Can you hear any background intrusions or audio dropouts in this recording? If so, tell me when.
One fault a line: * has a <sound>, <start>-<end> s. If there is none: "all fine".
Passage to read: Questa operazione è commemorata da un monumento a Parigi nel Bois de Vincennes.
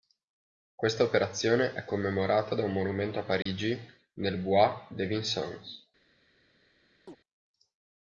* has a dropout, 3.4-3.5 s
* has a chirp, 7.1-7.2 s